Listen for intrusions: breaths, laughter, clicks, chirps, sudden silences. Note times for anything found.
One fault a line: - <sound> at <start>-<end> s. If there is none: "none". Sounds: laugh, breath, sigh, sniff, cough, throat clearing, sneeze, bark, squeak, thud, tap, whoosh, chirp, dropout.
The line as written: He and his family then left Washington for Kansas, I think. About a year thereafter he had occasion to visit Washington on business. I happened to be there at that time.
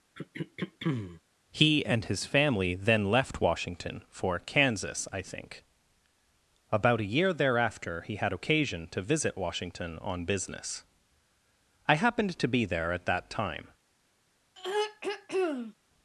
- throat clearing at 0.1-1.2 s
- throat clearing at 14.6-15.7 s